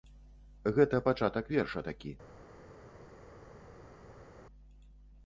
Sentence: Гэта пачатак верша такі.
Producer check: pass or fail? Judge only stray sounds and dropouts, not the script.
pass